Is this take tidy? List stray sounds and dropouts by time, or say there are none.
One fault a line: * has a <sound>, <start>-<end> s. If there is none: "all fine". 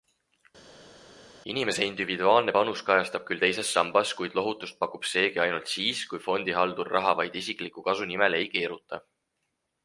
all fine